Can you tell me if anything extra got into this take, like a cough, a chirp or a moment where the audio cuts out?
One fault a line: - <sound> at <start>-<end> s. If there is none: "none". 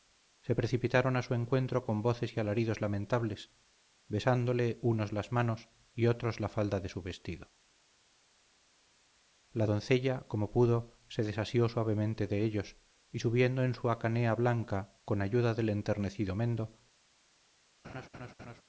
- laugh at 17.8-18.6 s